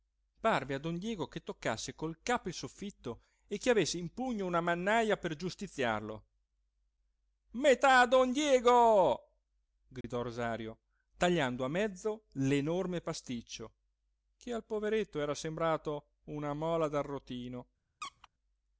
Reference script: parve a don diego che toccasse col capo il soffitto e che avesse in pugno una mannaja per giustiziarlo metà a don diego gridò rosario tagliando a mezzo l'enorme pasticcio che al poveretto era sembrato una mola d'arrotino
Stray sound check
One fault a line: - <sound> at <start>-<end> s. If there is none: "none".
- dropout at 10.0-10.0 s
- squeak at 18.0-18.3 s